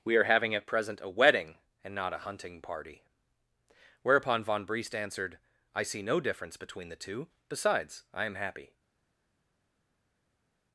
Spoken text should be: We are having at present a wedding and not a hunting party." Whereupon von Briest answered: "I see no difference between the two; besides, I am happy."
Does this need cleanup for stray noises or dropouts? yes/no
no